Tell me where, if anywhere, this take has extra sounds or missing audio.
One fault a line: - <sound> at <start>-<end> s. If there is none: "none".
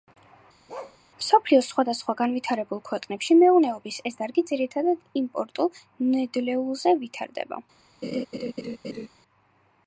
- bark at 0.7-1.0 s
- laugh at 8.0-9.1 s